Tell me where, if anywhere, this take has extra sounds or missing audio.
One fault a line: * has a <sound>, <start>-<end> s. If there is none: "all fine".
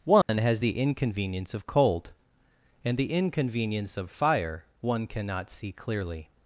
* has a dropout, 0.2-0.3 s